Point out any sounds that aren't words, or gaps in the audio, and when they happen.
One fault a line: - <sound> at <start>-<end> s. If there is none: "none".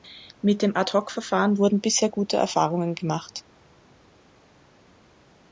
none